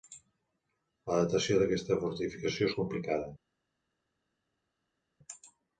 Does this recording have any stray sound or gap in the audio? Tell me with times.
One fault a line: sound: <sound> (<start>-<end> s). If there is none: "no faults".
no faults